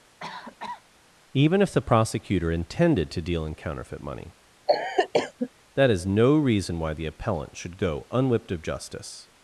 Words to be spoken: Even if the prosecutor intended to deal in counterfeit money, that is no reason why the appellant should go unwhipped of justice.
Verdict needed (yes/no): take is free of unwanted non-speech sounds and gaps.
no